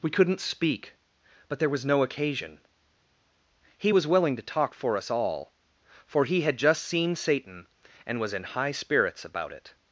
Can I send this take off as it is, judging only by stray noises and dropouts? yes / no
yes